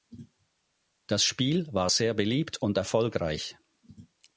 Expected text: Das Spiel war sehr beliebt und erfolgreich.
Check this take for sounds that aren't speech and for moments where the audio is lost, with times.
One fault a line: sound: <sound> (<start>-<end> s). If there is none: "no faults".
no faults